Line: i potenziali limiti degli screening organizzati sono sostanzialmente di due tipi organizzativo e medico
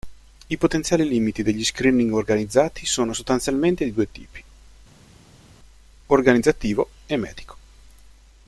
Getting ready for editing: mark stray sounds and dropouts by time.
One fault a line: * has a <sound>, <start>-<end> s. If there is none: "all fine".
all fine